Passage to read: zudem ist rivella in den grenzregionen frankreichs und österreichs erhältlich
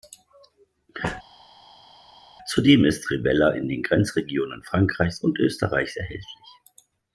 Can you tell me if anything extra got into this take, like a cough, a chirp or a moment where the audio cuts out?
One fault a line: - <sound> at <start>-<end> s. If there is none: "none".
none